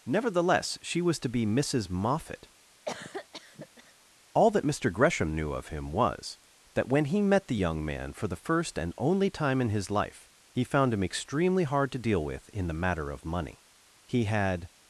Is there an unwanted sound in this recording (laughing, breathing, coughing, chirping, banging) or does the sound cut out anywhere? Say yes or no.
yes